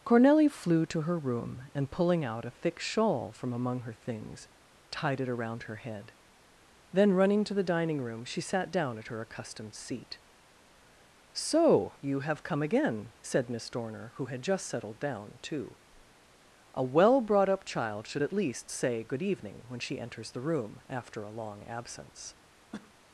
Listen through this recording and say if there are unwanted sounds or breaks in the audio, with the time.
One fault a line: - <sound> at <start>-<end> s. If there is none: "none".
- cough at 22.7-22.9 s